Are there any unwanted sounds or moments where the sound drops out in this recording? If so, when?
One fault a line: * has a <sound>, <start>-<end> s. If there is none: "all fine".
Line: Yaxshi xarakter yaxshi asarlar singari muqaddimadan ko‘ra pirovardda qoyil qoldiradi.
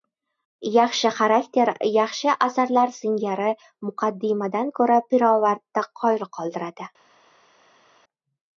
all fine